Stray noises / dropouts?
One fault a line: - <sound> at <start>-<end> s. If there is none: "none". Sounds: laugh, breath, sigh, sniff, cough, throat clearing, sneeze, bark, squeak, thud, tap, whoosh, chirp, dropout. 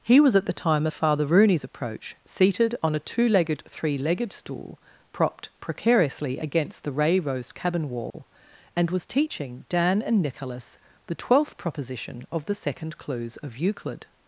- dropout at 8.1-8.1 s